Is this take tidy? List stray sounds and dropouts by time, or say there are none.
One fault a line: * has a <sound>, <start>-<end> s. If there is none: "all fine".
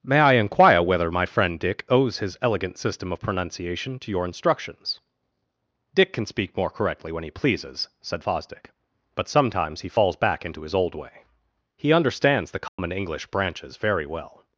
* has a dropout, 12.7-12.8 s